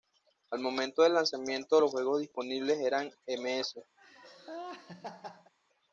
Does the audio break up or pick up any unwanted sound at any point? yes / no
yes